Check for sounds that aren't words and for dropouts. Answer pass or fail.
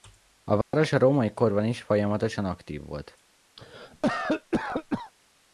fail